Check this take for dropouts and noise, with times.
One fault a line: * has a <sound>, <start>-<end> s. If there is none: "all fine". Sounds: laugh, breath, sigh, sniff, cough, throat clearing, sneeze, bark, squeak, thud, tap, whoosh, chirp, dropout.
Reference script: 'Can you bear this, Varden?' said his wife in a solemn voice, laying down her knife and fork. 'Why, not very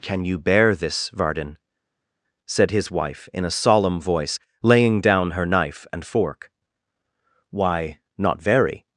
all fine